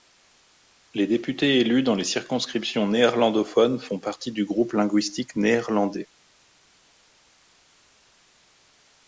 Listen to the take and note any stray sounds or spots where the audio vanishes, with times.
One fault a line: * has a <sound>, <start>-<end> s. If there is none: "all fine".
all fine